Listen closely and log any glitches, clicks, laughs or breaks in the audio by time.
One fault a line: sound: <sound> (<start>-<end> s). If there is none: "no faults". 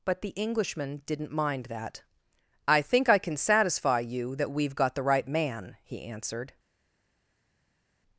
no faults